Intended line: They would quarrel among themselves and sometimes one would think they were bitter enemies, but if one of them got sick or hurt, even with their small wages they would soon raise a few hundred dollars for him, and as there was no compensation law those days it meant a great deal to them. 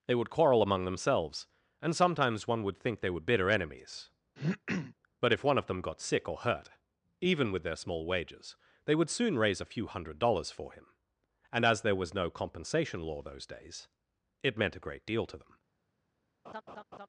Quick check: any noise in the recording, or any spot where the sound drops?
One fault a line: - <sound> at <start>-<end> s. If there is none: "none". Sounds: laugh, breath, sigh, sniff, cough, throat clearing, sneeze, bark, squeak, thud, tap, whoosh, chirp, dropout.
- throat clearing at 4.4-4.9 s
- laugh at 16.5-17.1 s